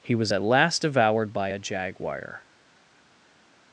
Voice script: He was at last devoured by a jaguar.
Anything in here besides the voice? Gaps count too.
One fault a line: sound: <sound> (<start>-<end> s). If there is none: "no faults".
no faults